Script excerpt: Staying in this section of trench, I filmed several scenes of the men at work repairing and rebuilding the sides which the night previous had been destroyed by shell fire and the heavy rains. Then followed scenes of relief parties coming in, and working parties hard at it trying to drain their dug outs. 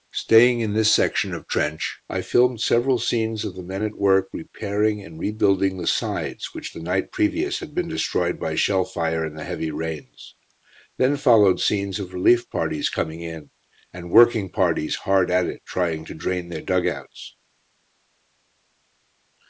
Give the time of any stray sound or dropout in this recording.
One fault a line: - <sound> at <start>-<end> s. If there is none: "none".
none